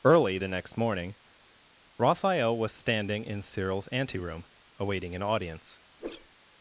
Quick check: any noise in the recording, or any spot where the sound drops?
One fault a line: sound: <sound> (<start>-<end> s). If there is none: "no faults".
sound: whoosh (6.0-6.3 s)